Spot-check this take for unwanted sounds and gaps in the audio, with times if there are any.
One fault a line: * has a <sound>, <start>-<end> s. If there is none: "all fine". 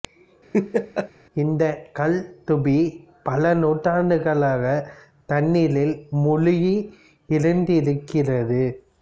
* has a laugh, 0.5-1.1 s